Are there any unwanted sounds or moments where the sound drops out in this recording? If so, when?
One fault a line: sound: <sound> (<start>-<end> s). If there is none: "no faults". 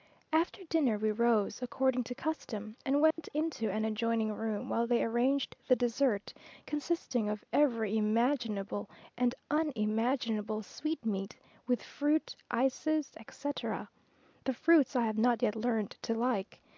sound: dropout (3.1-3.2 s)